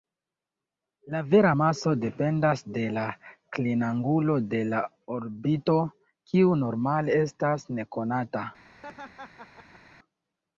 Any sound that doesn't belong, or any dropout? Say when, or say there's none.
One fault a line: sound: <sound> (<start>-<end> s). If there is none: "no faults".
sound: laugh (8.7-10.0 s)